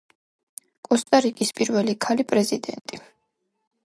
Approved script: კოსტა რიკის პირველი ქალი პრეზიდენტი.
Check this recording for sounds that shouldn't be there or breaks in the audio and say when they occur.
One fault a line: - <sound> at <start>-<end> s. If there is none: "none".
none